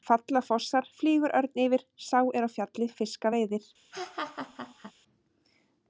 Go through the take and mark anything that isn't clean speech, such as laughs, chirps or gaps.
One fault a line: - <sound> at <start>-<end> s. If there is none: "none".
- laugh at 3.9-4.9 s